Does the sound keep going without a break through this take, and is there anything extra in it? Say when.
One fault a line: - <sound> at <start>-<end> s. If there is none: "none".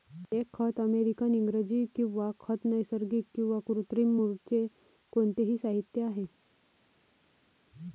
none